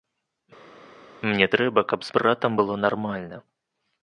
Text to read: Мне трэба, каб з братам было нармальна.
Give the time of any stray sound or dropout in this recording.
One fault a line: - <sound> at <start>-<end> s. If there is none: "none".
none